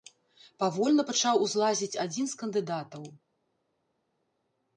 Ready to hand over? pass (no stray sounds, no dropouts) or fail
pass